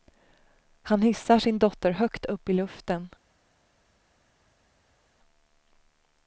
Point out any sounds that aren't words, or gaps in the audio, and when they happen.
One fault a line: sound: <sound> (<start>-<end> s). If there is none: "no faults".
no faults